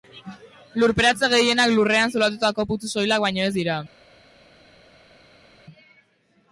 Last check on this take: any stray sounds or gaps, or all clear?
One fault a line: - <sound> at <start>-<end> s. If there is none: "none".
none